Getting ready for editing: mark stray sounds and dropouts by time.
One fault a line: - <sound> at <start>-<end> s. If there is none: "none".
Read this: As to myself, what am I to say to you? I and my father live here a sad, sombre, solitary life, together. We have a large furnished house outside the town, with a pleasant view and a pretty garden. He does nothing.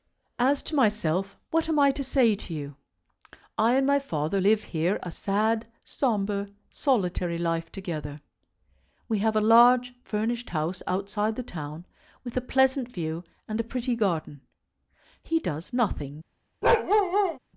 - bark at 16.6-17.4 s